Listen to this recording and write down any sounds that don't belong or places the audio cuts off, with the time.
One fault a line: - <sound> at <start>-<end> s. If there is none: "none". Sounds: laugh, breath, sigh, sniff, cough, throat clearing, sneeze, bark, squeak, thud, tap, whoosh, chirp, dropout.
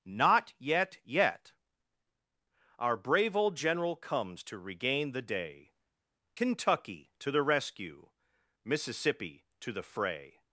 none